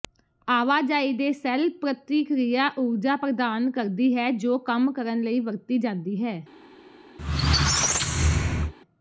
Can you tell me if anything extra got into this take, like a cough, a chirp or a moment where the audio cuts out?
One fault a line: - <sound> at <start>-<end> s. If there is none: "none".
- squeak at 7.2-8.7 s